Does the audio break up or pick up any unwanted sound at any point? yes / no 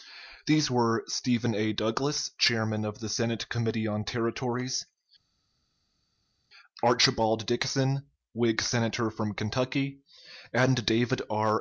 no